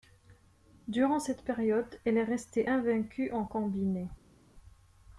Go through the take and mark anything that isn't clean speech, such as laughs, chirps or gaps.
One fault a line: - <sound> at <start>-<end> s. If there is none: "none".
none